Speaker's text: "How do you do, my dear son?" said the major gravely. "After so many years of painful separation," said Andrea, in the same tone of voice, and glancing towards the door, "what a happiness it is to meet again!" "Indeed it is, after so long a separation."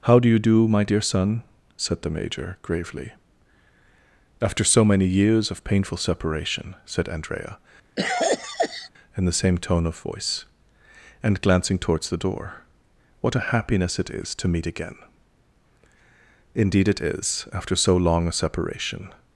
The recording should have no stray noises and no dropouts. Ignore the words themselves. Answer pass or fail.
fail